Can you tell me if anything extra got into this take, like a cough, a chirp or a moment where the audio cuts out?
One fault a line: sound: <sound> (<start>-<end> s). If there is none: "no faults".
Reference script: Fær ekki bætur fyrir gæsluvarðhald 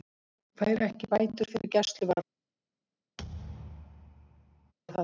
sound: dropout (1.6-1.6 s)
sound: thud (3.2-4.7 s)